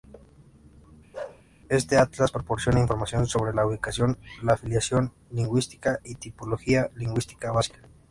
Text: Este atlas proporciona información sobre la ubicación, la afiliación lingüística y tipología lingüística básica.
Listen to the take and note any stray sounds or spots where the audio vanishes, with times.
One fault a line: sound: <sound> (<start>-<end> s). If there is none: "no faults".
sound: bark (1.1-1.4 s)